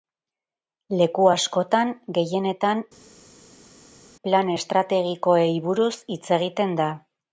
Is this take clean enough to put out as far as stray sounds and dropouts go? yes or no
yes